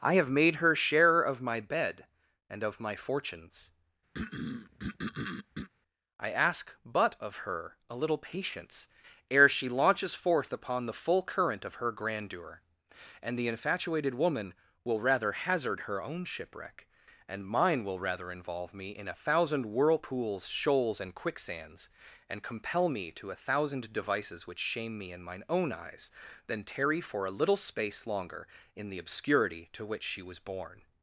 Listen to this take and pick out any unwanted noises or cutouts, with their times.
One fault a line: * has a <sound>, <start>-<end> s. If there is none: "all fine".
* has a throat clearing, 4.1-5.7 s